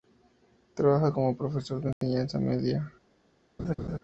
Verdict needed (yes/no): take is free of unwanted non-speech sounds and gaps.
no